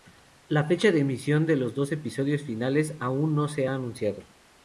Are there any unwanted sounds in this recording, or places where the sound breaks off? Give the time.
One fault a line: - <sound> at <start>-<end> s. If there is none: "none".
none